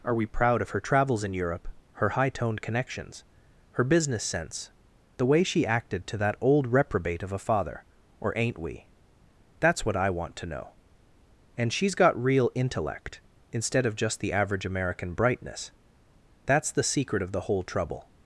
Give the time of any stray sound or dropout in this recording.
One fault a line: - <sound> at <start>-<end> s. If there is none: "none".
none